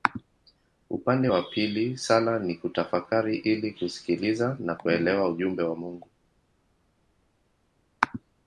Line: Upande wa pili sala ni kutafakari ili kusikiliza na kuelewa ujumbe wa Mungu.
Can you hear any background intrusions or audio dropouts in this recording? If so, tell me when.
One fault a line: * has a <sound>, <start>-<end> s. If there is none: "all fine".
all fine